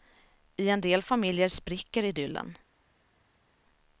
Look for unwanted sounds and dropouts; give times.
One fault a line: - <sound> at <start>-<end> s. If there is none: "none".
none